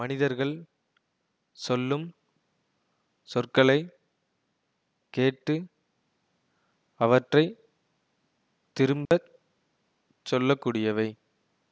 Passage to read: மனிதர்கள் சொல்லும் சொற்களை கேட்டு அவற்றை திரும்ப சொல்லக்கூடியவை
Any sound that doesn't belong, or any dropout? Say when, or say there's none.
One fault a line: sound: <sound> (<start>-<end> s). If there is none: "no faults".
sound: dropout (9.1-9.1 s)